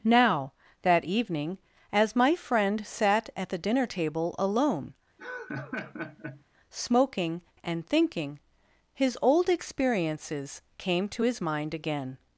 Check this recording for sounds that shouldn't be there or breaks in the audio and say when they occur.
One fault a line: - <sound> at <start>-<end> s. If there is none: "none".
- laugh at 5.2-6.4 s